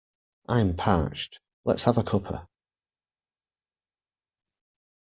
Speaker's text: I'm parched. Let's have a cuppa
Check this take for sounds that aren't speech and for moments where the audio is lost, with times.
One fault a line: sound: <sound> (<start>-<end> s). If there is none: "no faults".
no faults